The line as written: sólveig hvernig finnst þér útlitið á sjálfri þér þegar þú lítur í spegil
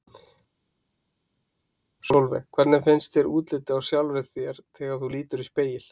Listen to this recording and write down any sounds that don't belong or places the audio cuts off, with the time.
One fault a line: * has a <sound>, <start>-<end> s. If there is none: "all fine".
all fine